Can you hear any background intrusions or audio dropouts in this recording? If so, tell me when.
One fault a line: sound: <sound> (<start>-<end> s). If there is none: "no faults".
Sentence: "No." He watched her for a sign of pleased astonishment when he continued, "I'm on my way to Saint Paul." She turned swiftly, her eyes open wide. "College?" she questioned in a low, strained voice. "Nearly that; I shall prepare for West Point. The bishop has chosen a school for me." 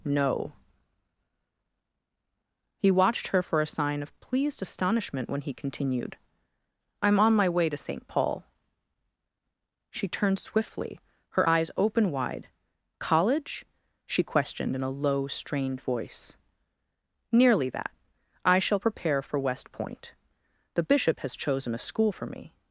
no faults